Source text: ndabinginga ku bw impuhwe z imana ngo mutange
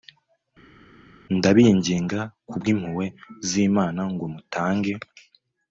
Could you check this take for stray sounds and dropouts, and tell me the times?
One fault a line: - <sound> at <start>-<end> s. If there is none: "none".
none